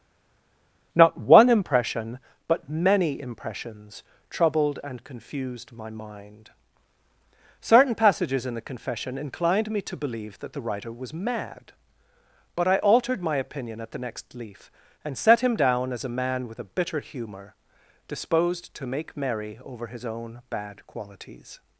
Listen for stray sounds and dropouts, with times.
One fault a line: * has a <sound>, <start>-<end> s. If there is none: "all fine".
all fine